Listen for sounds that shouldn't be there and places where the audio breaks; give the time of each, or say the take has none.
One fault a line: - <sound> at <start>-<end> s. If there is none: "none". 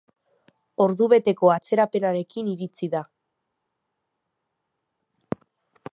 none